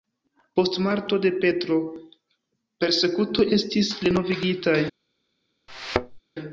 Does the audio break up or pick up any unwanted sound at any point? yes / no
yes